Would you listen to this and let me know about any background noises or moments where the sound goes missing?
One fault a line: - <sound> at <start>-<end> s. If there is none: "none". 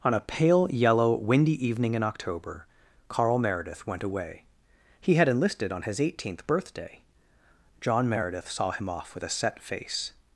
none